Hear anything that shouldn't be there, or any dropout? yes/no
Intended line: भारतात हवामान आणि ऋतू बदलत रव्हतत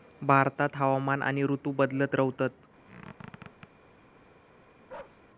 yes